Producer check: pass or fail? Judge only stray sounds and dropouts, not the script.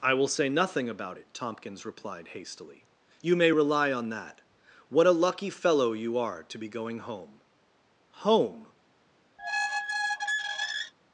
fail